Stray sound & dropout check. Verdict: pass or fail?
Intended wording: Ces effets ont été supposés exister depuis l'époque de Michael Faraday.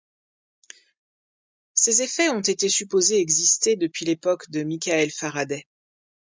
pass